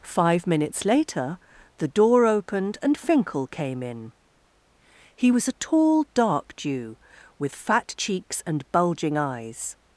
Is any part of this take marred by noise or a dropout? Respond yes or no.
no